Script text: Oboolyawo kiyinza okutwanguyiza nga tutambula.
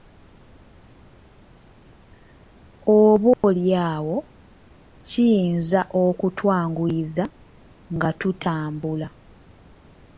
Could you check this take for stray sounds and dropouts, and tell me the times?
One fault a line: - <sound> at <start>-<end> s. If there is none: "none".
- dropout at 3.3-3.4 s